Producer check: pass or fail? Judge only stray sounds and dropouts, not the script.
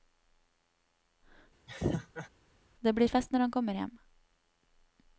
fail